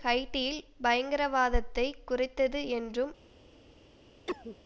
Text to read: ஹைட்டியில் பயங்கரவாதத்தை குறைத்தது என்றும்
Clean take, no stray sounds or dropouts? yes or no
no